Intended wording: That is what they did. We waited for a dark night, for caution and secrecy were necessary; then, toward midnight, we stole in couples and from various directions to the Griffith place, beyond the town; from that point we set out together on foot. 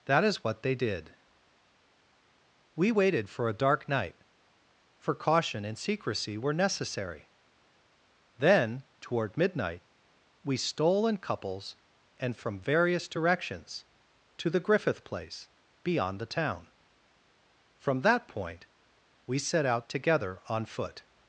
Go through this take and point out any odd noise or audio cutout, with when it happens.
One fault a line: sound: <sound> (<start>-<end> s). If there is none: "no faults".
no faults